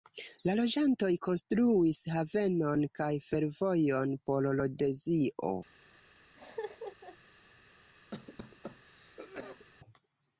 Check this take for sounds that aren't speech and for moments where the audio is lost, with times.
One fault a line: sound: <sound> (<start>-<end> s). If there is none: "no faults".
sound: laugh (6.4-7.2 s)
sound: cough (8.1-9.7 s)